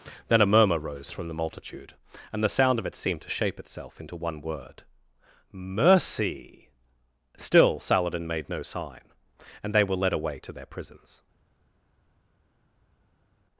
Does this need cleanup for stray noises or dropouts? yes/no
no